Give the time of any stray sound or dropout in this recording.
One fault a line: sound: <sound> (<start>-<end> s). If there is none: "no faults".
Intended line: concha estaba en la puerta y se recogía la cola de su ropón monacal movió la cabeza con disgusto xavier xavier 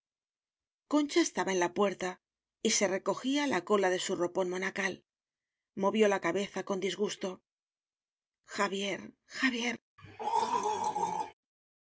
sound: throat clearing (10.0-11.3 s)